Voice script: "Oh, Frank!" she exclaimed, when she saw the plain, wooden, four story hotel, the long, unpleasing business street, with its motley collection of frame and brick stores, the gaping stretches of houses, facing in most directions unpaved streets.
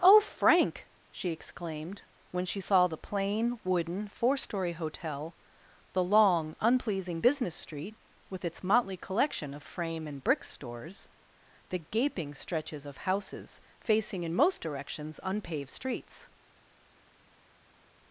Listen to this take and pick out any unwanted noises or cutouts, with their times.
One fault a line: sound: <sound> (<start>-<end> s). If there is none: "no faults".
no faults